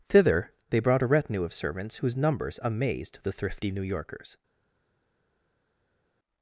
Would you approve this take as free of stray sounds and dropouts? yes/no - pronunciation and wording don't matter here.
yes